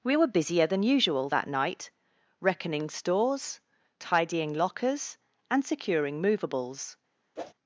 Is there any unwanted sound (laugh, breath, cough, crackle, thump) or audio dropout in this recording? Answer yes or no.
yes